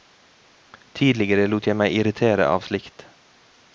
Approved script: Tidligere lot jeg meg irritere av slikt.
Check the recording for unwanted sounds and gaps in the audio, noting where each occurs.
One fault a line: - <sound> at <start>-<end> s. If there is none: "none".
none